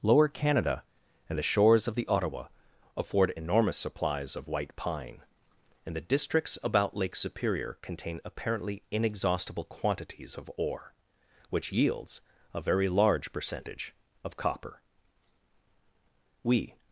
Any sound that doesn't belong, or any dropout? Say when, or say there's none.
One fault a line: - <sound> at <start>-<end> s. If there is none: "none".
none